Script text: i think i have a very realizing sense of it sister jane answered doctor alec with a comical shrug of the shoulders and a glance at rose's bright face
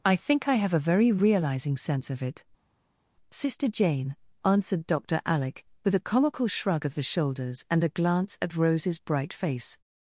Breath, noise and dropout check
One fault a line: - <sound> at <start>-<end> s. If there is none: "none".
none